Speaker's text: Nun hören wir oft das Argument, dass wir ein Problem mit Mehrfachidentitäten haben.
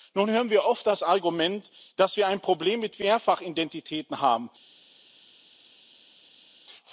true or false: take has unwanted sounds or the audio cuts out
false